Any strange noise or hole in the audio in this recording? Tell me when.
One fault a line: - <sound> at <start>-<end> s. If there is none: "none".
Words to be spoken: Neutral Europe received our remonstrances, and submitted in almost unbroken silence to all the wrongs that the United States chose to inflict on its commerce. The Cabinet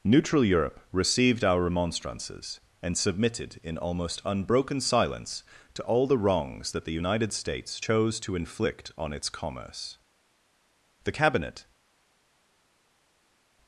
none